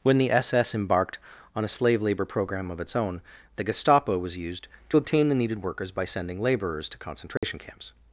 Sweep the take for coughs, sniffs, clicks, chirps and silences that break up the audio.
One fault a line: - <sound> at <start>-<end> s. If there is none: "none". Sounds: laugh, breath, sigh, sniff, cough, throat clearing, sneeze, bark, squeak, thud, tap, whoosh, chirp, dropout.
- dropout at 7.4-7.4 s